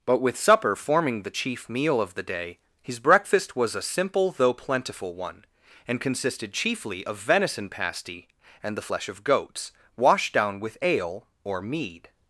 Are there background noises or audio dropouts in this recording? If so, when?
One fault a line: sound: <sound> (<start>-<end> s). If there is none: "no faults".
no faults